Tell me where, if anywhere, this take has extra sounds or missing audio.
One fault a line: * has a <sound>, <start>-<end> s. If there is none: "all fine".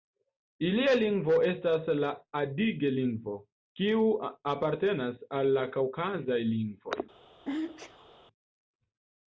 * has a sneeze, 7.4-8.2 s